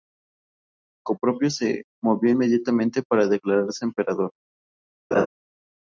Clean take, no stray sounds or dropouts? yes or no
no